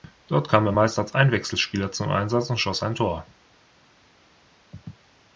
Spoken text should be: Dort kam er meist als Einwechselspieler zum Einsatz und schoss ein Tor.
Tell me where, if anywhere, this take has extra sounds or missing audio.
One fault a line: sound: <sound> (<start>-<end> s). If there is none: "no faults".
no faults